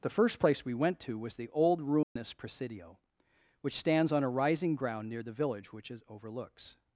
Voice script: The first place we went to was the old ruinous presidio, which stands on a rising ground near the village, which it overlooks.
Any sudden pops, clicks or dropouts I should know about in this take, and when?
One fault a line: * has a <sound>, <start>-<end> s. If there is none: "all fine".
* has a dropout, 2.0-2.2 s